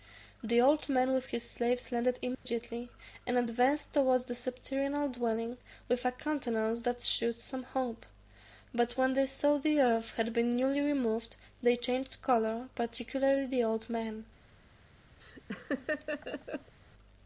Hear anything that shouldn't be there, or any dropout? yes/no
yes